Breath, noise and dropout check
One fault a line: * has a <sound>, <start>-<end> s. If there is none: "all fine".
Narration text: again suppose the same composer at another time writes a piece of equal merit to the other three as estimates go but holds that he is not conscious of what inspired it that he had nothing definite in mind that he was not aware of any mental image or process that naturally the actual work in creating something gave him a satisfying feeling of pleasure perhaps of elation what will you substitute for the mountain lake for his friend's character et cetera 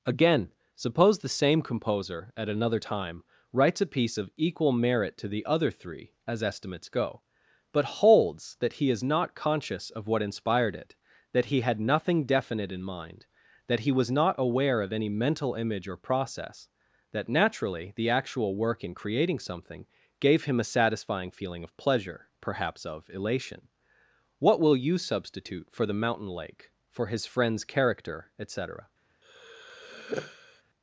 * has a sigh, 29.2-30.6 s